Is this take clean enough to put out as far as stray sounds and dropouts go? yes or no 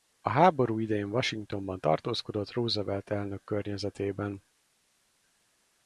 yes